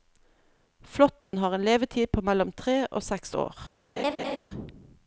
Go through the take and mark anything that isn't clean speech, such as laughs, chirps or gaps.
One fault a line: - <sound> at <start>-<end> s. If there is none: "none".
- dropout at 1.2-1.3 s
- laugh at 4.0-4.4 s